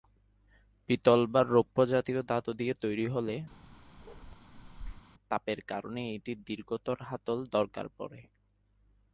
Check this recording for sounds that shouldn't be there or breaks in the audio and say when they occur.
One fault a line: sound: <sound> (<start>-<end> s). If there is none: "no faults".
sound: bark (3.5-5.1 s)